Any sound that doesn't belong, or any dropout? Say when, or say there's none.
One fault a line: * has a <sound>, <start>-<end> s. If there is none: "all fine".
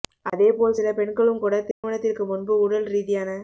* has a dropout, 1.7-1.8 s